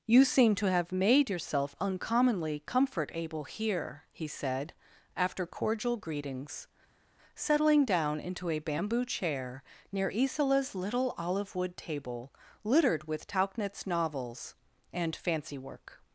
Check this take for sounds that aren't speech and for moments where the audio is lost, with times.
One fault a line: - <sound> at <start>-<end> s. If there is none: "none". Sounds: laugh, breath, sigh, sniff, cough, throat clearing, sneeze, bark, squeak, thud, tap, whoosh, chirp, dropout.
none